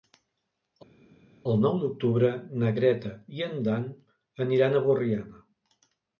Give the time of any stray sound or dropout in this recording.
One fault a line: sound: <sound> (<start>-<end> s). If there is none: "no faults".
no faults